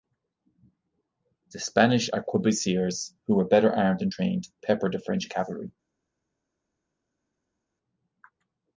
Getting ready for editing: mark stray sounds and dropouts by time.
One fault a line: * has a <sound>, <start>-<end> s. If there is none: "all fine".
all fine